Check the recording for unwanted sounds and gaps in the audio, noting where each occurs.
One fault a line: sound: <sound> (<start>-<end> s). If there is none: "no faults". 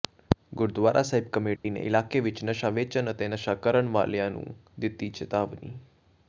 sound: dropout (1.6-1.6 s)